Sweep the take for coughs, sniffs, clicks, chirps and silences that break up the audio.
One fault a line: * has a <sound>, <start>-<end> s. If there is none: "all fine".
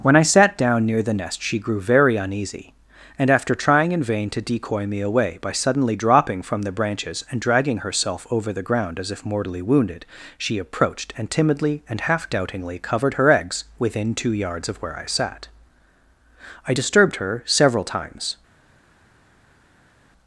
all fine